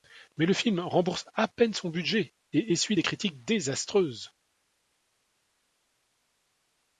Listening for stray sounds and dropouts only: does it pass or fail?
pass